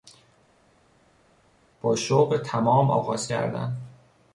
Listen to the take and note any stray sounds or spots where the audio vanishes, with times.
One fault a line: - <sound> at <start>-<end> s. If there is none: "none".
none